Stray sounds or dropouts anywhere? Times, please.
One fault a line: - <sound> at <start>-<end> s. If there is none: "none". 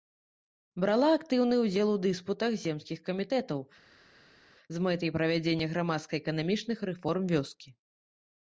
none